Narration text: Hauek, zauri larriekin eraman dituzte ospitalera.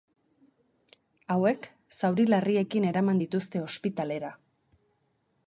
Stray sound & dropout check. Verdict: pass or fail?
pass